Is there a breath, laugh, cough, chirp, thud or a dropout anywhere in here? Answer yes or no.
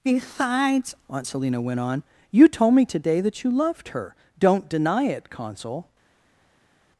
no